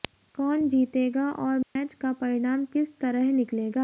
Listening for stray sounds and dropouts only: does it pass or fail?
fail